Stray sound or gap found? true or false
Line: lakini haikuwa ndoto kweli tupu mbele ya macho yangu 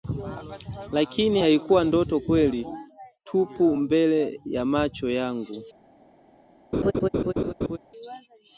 true